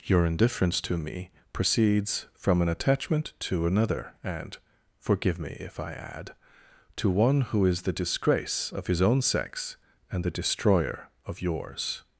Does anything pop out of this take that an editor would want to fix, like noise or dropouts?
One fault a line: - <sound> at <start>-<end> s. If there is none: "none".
none